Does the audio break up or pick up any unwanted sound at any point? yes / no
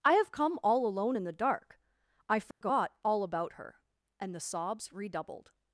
yes